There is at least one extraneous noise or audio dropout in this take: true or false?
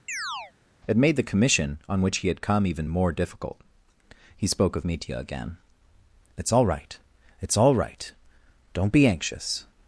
true